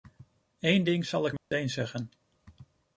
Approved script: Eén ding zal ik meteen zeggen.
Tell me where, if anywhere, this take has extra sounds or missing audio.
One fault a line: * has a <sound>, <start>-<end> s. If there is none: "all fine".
* has a dropout, 1.4-1.5 s